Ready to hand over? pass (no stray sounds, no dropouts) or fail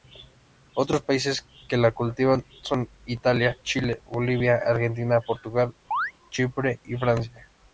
fail